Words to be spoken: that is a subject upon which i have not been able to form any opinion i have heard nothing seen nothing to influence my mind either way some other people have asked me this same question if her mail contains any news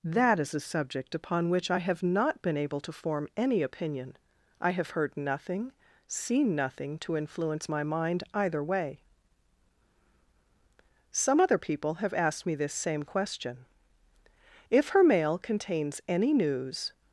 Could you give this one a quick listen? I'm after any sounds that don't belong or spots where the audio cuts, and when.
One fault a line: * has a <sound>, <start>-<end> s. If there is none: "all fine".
all fine